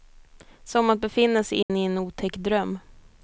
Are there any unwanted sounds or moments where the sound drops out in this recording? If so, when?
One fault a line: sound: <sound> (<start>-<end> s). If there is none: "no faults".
sound: dropout (1.6-1.7 s)